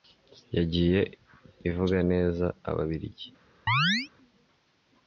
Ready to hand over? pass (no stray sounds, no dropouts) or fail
fail